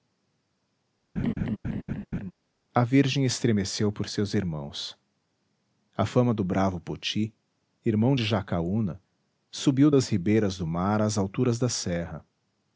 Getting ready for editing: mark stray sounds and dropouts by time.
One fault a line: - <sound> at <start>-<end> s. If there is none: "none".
- laugh at 1.2-2.3 s